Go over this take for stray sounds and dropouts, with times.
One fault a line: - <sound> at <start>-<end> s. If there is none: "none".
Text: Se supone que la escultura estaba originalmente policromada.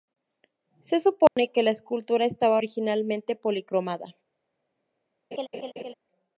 - dropout at 1.3-1.4 s
- laugh at 5.3-5.9 s